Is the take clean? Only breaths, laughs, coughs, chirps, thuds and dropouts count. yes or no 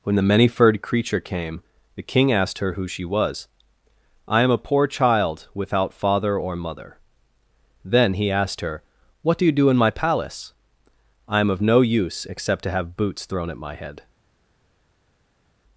yes